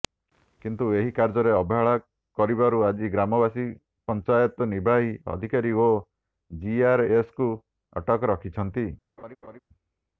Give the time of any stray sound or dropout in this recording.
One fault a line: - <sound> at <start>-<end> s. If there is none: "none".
- laugh at 9.2-9.6 s